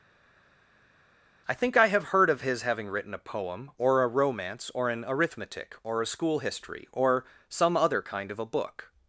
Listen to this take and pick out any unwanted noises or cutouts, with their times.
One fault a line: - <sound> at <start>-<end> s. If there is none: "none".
none